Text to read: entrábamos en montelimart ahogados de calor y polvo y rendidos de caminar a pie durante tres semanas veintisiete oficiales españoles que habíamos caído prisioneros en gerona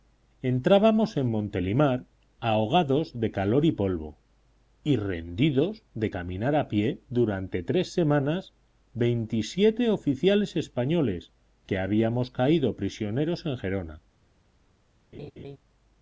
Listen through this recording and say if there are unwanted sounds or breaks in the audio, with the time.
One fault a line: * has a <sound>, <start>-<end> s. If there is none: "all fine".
* has a laugh, 15.1-15.6 s